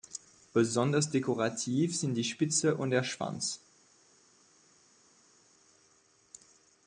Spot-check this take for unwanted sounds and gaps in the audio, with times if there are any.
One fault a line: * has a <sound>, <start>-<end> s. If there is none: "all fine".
all fine